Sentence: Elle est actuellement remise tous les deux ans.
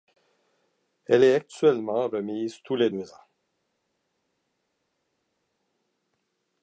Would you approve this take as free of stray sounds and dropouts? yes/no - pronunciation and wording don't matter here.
yes